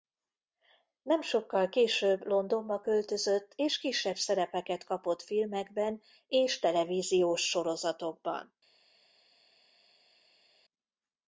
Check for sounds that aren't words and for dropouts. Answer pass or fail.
pass